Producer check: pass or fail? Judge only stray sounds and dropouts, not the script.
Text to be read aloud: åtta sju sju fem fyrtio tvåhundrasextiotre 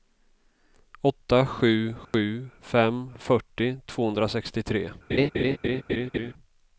fail